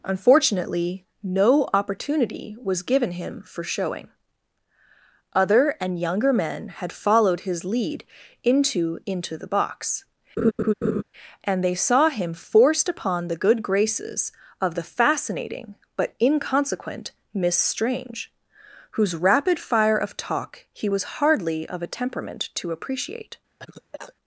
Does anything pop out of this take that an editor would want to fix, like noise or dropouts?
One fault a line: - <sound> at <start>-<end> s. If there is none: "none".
- laugh at 10.4-11.0 s
- cough at 23.6-24.1 s